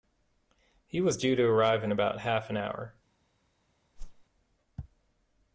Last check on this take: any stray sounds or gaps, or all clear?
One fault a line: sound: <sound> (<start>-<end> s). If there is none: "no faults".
sound: whoosh (4.0-4.2 s)